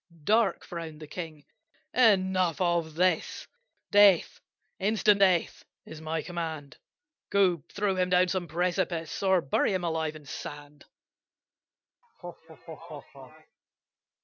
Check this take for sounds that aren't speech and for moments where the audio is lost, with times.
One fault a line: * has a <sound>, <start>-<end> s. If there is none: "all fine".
* has a laugh, 12.0-13.6 s